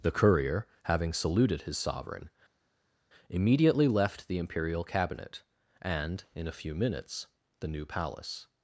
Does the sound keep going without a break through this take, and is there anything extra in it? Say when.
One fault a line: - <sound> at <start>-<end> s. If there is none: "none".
none